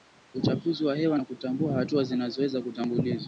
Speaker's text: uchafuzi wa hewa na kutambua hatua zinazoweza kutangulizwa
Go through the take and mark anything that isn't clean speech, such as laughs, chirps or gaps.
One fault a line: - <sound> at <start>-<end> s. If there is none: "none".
none